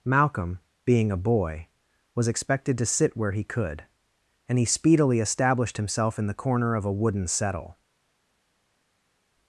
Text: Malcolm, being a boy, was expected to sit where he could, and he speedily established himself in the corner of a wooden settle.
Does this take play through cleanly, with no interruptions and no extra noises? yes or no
yes